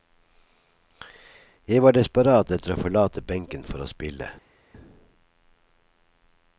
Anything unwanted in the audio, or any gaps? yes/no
no